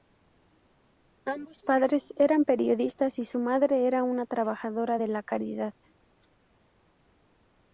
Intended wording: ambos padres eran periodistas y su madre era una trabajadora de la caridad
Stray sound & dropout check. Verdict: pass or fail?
pass